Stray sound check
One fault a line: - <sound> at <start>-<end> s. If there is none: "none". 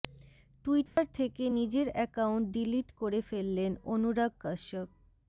- dropout at 0.9-1.0 s